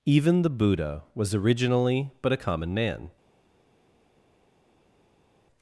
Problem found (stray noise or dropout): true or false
false